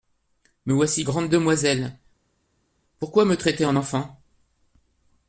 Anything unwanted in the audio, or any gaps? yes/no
no